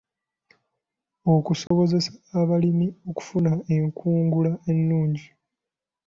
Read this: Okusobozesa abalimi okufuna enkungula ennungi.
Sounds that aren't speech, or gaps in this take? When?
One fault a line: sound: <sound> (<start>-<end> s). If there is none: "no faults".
sound: dropout (1.7-1.7 s)